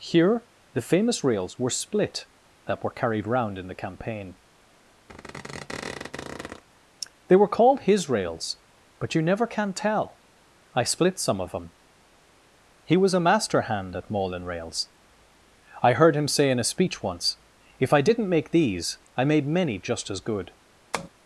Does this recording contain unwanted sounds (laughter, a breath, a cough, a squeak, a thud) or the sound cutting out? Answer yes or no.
yes